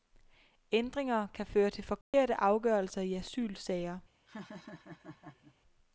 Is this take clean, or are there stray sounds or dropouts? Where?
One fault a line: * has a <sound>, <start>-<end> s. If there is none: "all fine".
* has a dropout, 2.0-2.1 s
* has a laugh, 4.3-5.6 s